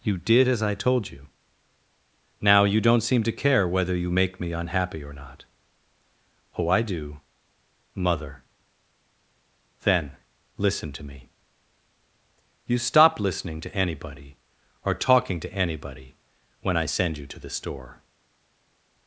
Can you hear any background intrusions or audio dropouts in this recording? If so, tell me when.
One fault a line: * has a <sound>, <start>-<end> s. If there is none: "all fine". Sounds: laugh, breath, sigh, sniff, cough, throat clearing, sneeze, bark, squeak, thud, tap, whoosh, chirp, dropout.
all fine